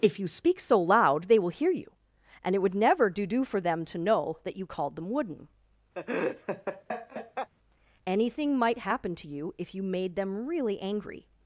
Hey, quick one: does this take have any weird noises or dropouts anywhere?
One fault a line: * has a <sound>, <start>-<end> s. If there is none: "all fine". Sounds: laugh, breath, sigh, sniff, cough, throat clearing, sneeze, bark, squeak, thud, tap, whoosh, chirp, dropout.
* has a laugh, 5.9-7.5 s